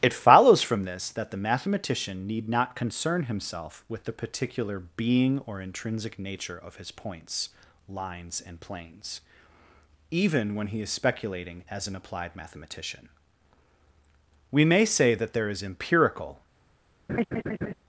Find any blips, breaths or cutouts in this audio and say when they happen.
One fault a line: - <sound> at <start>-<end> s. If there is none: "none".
- laugh at 17.1-17.7 s